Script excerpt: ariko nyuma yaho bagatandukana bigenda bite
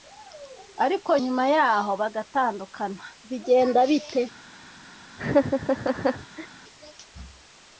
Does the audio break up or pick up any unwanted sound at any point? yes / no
yes